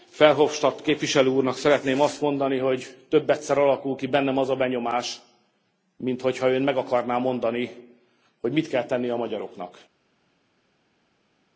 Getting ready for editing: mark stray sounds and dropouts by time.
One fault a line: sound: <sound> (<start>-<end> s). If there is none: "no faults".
no faults